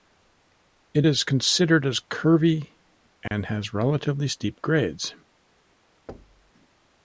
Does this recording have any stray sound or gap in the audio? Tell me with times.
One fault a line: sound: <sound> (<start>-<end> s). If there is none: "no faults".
sound: dropout (3.3-3.3 s)
sound: thud (6.1-6.5 s)